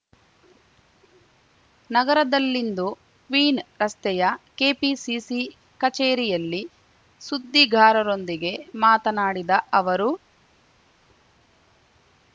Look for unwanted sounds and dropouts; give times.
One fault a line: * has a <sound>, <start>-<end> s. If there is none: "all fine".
all fine